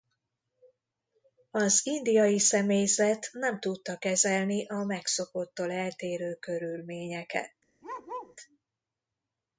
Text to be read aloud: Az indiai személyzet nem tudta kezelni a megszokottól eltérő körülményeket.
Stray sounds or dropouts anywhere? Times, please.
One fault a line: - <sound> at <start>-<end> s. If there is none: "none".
- bark at 7.8-8.4 s